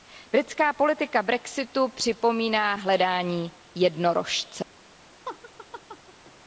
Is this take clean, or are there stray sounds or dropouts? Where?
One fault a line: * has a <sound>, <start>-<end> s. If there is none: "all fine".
* has a laugh, 5.2-6.3 s